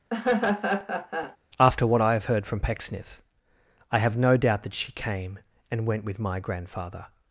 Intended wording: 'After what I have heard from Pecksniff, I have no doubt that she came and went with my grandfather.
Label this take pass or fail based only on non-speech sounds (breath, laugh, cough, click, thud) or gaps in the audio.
fail